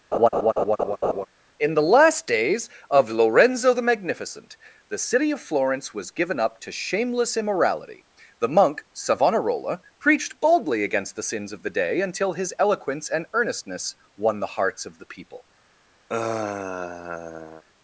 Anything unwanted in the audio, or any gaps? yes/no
yes